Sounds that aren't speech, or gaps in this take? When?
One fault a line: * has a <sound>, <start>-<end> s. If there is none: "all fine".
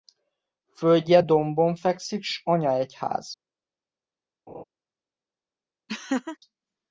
* has a laugh, 4.5-4.6 s
* has a laugh, 5.9-6.4 s